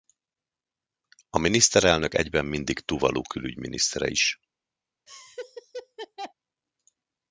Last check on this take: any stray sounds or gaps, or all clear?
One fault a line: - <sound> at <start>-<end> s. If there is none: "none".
- laugh at 5.1-6.3 s